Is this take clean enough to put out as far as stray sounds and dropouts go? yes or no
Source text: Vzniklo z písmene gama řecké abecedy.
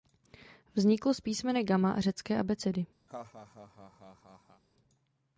no